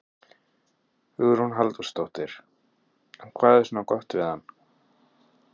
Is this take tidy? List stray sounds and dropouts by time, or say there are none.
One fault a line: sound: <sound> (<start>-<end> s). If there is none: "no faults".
no faults